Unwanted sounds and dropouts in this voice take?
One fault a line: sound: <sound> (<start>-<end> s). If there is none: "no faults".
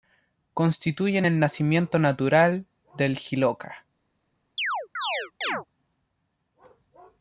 sound: chirp (4.6-5.7 s)